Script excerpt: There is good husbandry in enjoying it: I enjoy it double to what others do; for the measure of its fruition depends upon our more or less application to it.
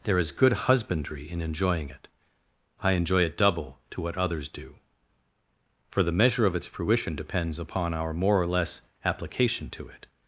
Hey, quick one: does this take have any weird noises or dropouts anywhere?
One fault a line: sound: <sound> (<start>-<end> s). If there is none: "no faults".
no faults